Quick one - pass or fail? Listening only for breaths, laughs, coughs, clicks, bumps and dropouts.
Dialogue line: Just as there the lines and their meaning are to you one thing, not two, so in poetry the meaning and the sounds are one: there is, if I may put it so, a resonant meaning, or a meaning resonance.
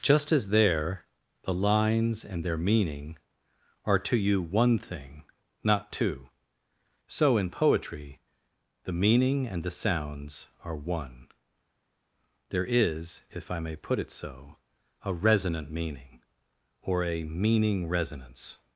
pass